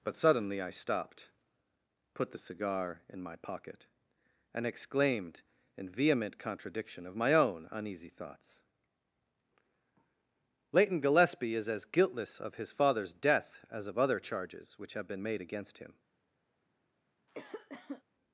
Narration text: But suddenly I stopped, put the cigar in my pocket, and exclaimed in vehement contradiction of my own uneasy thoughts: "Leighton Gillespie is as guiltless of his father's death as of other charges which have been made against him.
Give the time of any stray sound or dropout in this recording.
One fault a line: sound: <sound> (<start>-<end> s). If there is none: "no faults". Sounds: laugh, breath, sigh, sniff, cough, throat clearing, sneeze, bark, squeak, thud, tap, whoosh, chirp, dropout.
sound: cough (17.3-18.0 s)